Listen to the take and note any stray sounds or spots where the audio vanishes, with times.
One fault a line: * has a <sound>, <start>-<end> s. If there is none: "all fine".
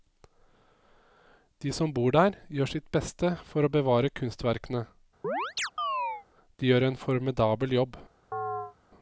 * has a chirp, 5.2-6.3 s
* has a chirp, 8.3-8.8 s